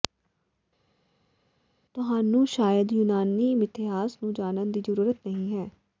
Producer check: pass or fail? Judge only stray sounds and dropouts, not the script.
pass